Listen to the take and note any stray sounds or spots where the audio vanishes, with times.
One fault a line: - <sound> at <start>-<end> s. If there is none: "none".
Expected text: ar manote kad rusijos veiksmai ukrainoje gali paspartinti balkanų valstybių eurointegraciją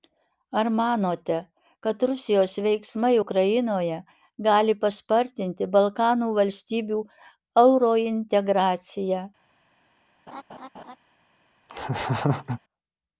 - laugh at 10.3-11.0 s
- laugh at 11.7-12.6 s